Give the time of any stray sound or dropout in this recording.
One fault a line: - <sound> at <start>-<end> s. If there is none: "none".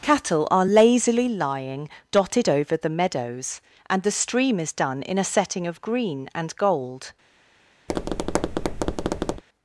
- tap at 7.9-9.4 s